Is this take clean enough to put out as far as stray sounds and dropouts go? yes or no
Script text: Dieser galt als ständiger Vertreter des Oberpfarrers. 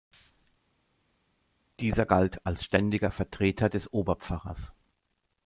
yes